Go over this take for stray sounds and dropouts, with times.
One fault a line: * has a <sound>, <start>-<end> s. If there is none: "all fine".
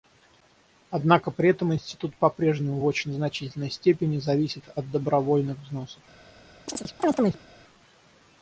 * has a chirp, 6.7-7.5 s